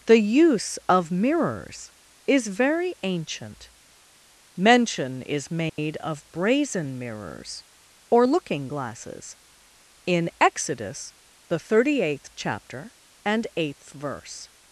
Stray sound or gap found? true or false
true